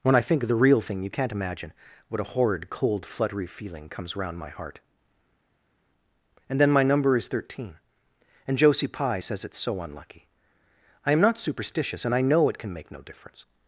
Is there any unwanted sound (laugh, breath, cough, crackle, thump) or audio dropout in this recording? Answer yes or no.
no